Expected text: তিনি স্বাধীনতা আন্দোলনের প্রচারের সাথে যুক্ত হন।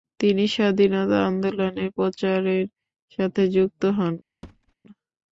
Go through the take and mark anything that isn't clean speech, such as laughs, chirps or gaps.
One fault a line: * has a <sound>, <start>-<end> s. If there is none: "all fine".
* has a thud, 4.4-4.7 s